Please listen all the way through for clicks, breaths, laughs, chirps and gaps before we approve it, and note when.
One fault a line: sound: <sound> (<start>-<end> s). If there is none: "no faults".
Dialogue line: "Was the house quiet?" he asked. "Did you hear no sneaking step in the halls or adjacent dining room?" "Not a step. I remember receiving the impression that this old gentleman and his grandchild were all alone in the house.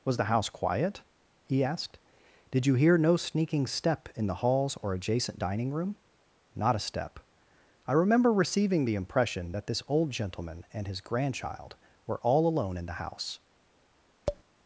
sound: tap (14.3-14.4 s)